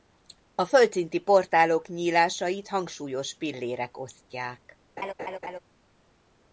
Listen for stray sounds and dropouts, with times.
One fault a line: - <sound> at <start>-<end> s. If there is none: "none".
- laugh at 5.0-5.6 s